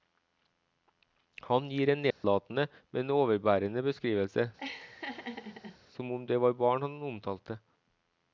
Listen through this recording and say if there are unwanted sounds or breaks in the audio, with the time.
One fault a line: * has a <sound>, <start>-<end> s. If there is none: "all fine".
* has a dropout, 2.1-2.2 s
* has a laugh, 4.6-5.8 s